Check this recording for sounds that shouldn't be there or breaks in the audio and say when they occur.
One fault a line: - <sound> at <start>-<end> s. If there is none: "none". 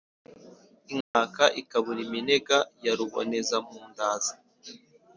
- dropout at 1.0-1.1 s